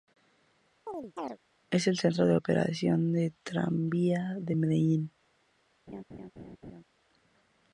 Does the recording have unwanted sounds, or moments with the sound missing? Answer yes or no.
yes